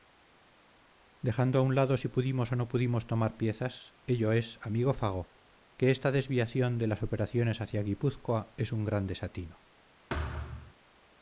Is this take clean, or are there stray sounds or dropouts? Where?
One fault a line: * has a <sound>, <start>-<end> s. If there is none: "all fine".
* has a thud, 10.1-10.7 s